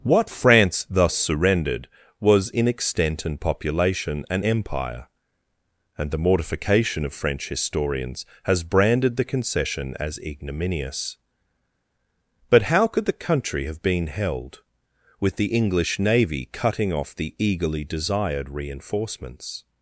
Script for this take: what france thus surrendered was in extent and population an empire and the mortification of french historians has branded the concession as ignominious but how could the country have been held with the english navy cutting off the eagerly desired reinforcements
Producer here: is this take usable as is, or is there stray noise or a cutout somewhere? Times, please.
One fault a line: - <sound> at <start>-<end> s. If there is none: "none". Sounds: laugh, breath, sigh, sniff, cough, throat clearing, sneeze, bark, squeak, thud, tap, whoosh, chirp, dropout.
none